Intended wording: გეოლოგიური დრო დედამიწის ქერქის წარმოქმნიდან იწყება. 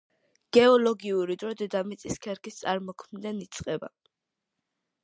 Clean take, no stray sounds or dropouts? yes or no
yes